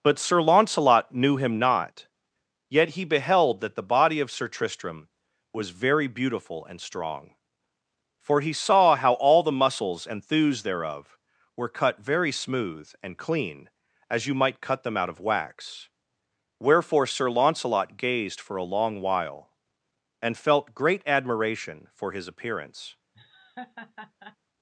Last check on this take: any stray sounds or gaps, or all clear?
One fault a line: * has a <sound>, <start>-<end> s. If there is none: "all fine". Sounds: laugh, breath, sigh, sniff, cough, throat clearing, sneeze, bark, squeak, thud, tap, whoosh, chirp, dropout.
* has a laugh, 23.1-24.4 s